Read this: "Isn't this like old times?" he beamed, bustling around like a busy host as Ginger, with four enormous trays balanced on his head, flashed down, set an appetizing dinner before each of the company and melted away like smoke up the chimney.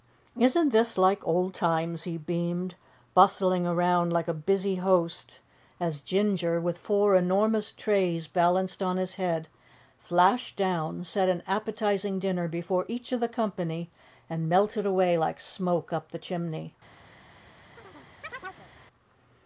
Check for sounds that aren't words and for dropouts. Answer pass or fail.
fail